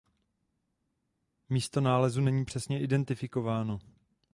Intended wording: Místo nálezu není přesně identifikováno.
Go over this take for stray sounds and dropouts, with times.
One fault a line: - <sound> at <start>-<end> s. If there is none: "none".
none